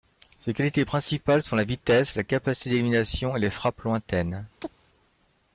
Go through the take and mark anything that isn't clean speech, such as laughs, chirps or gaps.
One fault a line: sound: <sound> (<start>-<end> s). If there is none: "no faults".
sound: chirp (4.6-4.7 s)